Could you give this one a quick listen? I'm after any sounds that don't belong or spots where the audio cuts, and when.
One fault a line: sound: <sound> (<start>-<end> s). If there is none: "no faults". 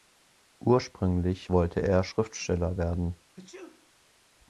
sound: sneeze (3.3-3.9 s)